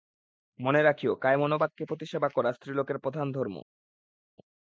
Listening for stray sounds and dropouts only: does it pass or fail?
pass